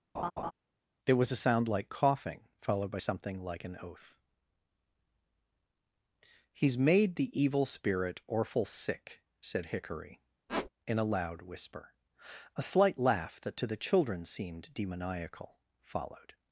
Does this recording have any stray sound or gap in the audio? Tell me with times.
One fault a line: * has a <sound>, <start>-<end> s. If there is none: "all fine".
* has a laugh, 0.1-0.5 s
* has a squeak, 10.5-10.7 s